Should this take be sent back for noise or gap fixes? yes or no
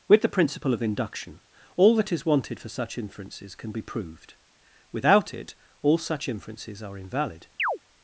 yes